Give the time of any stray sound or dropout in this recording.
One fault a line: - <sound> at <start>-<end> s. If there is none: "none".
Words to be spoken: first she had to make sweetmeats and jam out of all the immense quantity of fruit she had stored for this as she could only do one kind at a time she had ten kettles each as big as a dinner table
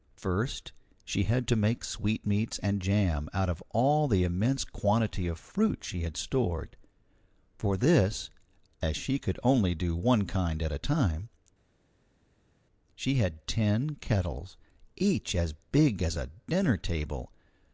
none